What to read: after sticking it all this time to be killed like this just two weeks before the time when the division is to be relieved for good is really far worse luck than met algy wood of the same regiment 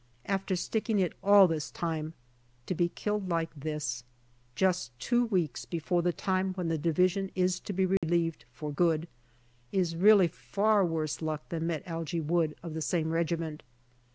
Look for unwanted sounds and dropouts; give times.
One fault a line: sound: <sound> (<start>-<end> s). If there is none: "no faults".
sound: dropout (8.0-8.0 s)